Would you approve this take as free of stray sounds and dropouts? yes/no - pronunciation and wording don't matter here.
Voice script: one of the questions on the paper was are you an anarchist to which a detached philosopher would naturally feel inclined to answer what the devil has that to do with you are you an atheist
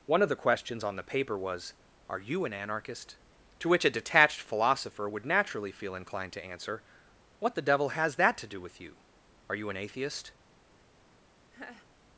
no